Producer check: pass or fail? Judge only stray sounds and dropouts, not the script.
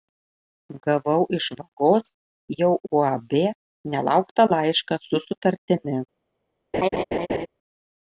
fail